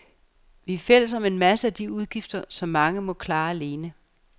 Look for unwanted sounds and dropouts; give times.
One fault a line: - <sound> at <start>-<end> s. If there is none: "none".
none